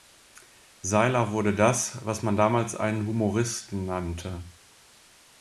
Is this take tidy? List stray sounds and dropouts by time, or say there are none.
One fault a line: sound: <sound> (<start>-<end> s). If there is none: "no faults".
no faults